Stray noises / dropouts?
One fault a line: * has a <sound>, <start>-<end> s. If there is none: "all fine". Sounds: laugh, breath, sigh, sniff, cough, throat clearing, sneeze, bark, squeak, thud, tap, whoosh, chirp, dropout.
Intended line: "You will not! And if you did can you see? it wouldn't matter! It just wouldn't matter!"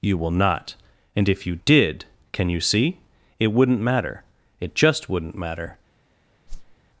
* has a whoosh, 6.5-6.8 s